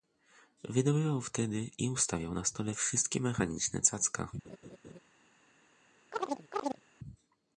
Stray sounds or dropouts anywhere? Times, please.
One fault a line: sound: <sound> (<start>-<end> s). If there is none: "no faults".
sound: laugh (4.4-5.0 s)
sound: chirp (6.1-6.8 s)